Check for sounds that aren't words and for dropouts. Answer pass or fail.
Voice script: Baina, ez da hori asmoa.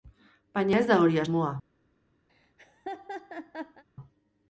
fail